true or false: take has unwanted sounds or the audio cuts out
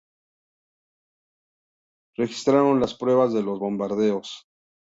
false